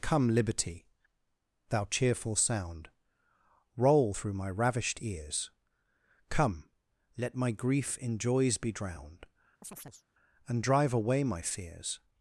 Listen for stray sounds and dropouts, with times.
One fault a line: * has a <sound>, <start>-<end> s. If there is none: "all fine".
* has a chirp, 9.6-10.0 s